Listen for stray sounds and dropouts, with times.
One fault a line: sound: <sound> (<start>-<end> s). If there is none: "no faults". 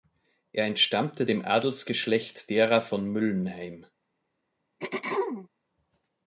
sound: throat clearing (4.8-5.5 s)